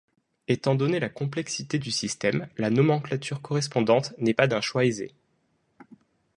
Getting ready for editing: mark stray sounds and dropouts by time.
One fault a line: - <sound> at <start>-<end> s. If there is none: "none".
none